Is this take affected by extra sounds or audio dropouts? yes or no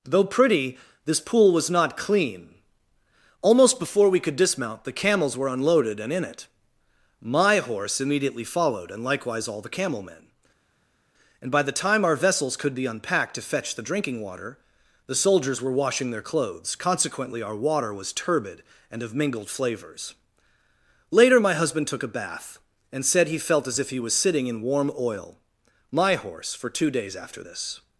no